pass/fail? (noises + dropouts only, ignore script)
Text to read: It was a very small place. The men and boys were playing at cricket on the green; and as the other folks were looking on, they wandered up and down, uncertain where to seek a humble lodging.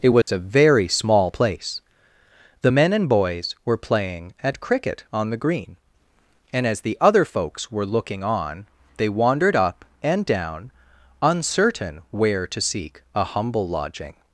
fail